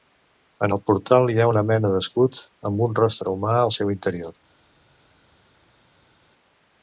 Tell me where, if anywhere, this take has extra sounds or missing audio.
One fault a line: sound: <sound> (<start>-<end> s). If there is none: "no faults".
no faults